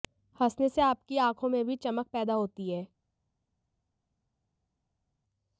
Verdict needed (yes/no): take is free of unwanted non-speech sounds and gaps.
yes